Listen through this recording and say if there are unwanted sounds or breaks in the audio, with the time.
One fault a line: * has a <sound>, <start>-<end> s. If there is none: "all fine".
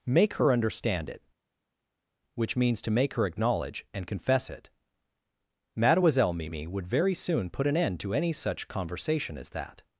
all fine